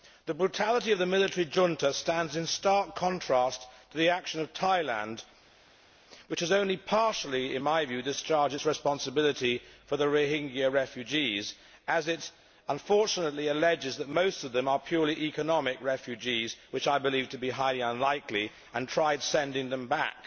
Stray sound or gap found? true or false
false